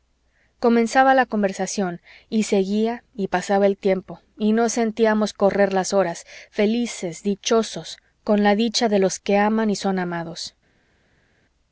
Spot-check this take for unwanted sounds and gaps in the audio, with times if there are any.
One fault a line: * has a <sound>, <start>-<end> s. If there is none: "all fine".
all fine